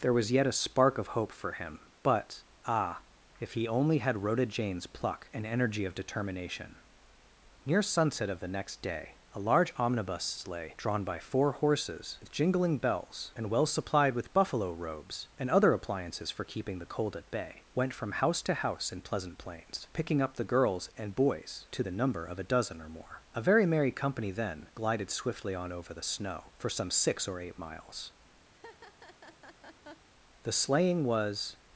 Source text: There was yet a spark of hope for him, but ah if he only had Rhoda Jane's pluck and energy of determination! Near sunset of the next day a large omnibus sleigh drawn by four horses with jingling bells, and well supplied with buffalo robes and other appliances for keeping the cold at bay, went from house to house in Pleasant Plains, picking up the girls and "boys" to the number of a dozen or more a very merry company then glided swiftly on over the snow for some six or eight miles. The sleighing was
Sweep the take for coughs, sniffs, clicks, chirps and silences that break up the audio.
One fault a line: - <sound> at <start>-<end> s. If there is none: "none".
- laugh at 28.5-30.1 s